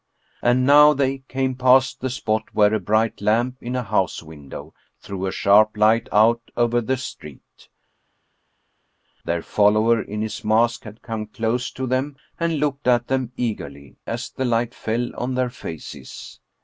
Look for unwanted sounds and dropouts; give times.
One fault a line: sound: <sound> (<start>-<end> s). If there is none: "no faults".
no faults